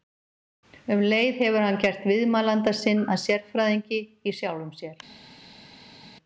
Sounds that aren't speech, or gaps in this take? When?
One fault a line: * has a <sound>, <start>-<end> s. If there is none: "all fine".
all fine